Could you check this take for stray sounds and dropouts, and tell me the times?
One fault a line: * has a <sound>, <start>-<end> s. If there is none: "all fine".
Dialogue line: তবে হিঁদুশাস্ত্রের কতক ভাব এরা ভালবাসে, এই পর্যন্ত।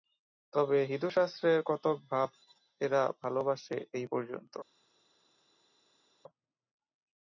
all fine